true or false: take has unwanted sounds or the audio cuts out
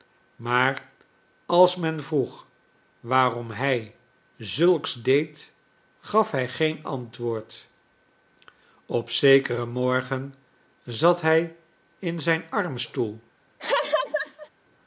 true